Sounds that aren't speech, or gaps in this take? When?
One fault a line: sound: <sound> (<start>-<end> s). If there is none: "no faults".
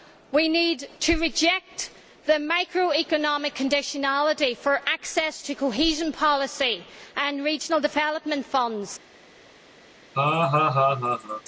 sound: laugh (10.1-11.4 s)